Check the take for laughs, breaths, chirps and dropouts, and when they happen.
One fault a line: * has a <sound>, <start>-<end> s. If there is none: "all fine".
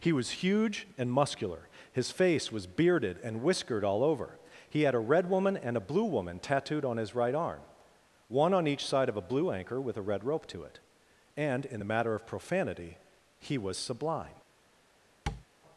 * has a tap, 15.3-15.5 s